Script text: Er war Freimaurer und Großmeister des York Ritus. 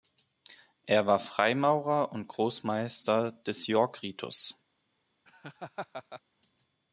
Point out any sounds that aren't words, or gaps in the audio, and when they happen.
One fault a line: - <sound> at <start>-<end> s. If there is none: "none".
- laugh at 5.3-6.2 s